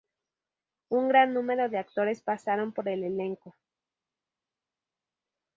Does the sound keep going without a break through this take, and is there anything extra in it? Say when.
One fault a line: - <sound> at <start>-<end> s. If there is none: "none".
none